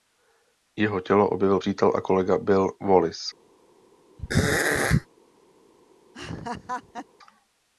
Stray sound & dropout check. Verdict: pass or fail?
fail